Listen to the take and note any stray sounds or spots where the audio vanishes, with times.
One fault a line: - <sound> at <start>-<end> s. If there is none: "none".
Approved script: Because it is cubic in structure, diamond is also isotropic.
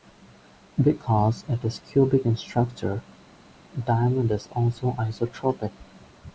none